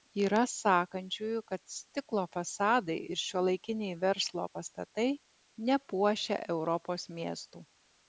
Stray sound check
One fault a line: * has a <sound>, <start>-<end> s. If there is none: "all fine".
all fine